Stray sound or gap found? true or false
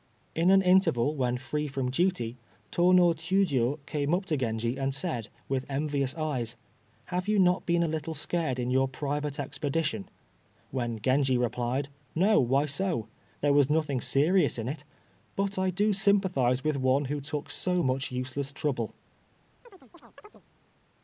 true